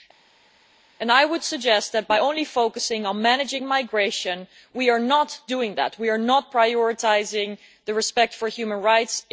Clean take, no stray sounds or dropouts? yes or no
yes